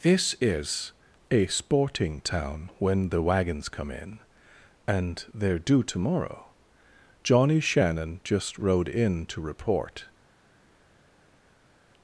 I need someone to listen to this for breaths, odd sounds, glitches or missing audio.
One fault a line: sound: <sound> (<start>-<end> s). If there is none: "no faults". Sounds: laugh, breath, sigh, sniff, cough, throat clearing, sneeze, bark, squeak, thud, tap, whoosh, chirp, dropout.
no faults